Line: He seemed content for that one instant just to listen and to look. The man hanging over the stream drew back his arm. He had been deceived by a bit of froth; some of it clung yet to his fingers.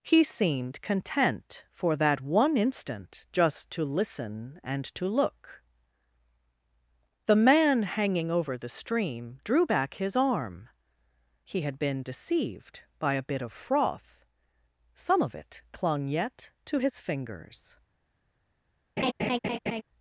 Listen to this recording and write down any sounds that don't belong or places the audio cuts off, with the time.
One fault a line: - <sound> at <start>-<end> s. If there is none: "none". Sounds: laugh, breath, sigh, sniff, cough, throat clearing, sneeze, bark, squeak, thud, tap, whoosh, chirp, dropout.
- laugh at 19.0-19.8 s